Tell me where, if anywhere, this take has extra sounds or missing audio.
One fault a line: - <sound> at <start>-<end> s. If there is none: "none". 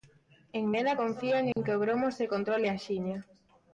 - dropout at 1.5-1.6 s